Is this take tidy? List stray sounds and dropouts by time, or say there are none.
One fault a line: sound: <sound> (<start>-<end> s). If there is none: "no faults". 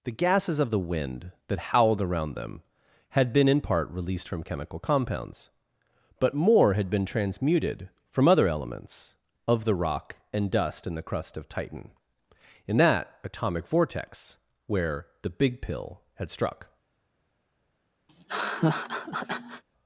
sound: laugh (18.1-19.6 s)